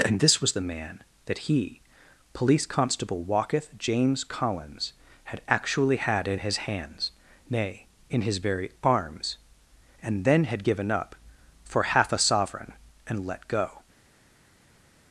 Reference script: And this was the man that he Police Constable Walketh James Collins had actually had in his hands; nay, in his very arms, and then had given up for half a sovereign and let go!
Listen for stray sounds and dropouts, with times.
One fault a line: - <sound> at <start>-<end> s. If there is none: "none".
none